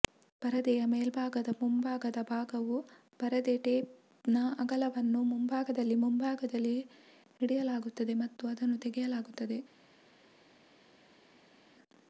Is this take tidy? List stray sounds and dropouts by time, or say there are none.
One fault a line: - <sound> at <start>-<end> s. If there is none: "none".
none